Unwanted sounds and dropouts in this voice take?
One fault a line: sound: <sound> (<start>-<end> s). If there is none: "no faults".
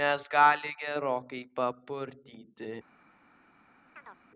sound: chirp (4.0-4.2 s)